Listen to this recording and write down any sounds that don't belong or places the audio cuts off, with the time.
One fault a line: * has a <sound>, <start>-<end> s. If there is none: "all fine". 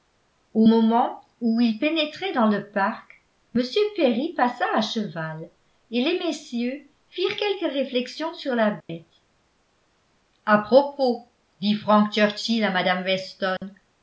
* has a dropout, 8.8-8.9 s
* has a dropout, 13.6-13.6 s